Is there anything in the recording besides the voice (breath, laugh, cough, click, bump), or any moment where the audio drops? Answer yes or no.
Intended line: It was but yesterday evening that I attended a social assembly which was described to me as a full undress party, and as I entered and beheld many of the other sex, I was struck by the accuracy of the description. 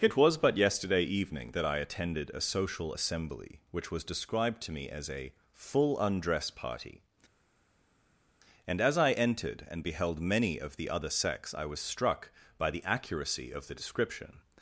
no